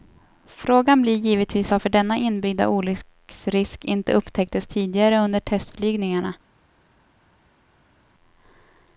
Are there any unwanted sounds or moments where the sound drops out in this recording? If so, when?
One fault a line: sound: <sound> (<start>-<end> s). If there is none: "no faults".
no faults